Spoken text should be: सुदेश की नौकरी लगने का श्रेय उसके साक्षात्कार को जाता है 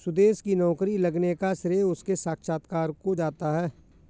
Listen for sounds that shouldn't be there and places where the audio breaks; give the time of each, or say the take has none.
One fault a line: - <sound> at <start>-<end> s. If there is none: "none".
none